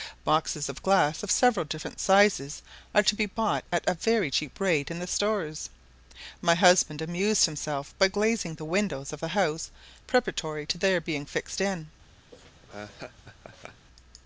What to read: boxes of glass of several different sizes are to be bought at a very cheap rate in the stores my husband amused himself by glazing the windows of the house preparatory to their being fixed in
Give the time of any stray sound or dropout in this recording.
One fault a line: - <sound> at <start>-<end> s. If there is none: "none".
- laugh at 12.3-13.9 s